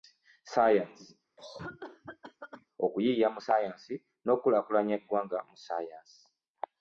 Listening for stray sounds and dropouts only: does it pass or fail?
fail